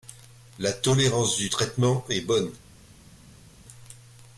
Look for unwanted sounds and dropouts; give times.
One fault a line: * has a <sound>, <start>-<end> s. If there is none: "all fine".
all fine